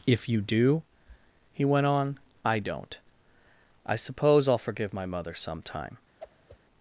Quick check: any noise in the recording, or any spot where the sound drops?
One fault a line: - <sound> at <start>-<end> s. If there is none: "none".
- whoosh at 6.2-6.6 s